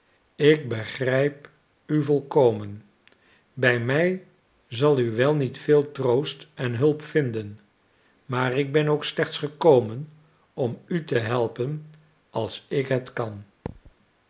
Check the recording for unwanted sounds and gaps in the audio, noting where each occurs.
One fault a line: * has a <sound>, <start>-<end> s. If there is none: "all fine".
* has a thud, 13.7-13.9 s